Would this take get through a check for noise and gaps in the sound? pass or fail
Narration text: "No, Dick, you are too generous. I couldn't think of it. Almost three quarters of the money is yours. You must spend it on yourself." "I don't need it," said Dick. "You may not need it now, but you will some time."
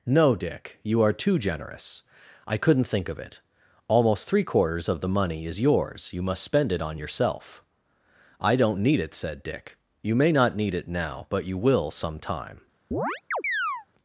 fail